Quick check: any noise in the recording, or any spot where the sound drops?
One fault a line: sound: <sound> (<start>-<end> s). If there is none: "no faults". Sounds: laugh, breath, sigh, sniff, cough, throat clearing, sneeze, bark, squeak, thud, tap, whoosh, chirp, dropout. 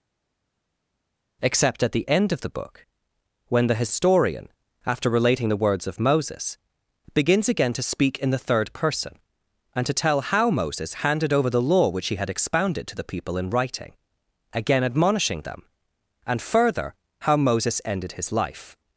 no faults